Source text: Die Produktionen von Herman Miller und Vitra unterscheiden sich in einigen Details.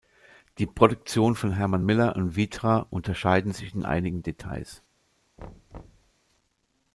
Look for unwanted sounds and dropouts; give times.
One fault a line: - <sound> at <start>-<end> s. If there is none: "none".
- thud at 5.4-6.1 s